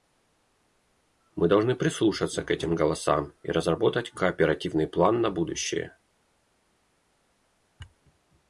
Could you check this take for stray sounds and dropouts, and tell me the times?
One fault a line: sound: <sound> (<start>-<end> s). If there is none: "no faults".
no faults